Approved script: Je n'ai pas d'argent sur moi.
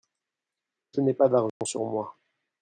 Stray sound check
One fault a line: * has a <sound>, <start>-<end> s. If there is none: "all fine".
* has a dropout, 1.5-1.6 s